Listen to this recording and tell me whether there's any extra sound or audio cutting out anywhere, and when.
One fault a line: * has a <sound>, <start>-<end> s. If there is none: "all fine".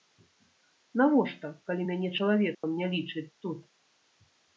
* has a dropout, 2.5-2.6 s